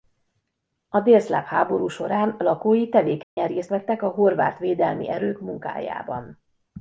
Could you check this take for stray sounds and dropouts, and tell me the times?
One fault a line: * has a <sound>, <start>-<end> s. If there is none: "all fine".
* has a dropout, 3.2-3.4 s